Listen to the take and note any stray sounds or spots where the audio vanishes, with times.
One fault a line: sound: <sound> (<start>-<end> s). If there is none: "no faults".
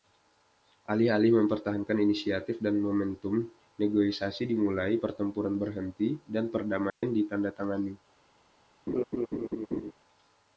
sound: dropout (6.9-7.0 s)
sound: laugh (8.9-9.9 s)